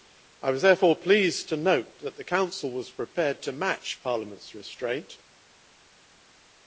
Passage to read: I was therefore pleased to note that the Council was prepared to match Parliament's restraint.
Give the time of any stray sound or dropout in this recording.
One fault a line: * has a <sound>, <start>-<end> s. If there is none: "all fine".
all fine